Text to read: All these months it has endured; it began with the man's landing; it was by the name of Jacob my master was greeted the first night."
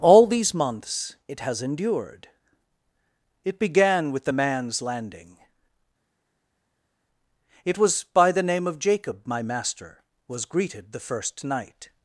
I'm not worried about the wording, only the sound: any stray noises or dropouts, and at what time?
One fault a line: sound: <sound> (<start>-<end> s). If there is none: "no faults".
no faults